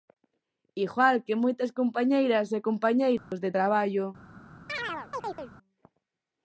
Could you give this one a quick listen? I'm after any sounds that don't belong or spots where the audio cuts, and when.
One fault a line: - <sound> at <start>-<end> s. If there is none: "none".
- dropout at 3.2-3.3 s
- chirp at 4.7-5.5 s